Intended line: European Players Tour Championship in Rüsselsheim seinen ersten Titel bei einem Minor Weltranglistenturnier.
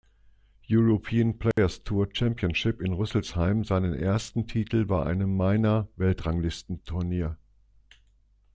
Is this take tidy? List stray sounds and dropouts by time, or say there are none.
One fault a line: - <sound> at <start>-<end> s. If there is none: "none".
- dropout at 1.5-1.6 s